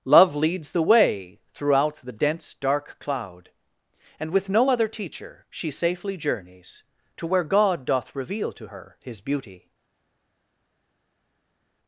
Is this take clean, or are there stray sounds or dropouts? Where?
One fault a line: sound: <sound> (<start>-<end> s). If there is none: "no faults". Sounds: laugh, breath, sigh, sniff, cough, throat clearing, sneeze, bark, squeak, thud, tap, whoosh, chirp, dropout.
no faults